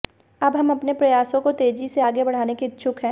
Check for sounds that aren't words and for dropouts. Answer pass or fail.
pass